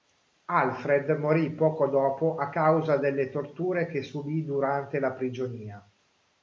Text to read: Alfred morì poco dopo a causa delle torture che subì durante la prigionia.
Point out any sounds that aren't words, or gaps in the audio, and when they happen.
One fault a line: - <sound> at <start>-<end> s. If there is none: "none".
none